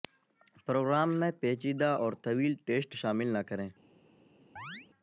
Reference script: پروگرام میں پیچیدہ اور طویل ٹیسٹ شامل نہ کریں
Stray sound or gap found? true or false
true